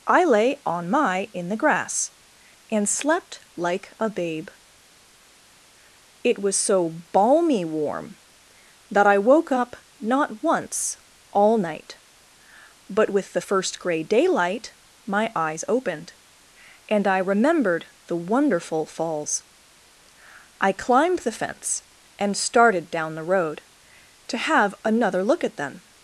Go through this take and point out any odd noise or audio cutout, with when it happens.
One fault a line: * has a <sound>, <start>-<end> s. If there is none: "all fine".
all fine